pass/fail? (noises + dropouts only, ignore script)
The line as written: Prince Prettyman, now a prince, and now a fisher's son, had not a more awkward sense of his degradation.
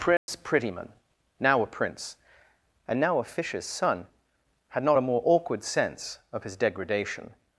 fail